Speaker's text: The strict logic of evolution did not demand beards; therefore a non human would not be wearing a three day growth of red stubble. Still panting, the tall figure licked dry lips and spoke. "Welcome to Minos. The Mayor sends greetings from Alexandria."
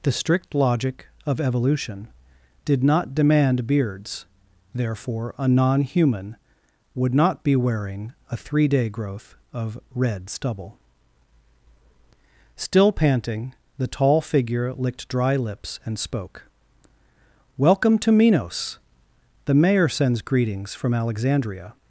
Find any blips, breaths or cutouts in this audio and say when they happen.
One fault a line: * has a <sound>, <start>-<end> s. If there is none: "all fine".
all fine